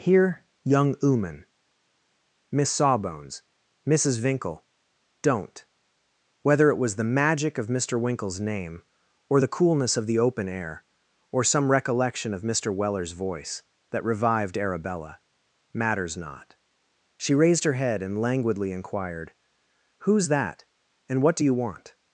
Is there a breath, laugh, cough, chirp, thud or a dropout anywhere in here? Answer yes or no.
no